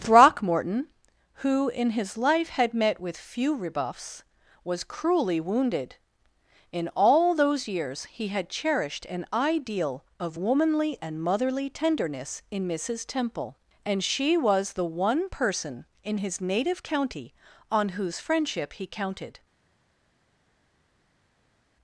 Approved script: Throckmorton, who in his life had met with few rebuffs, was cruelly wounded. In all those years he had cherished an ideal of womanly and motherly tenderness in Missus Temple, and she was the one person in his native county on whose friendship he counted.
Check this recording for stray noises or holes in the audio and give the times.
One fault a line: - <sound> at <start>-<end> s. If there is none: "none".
none